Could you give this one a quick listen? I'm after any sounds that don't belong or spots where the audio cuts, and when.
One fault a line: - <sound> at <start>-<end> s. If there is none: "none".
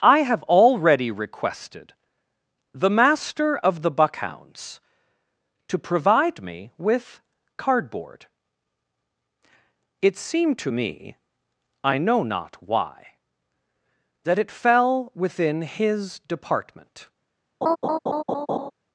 - laugh at 17.6-18.7 s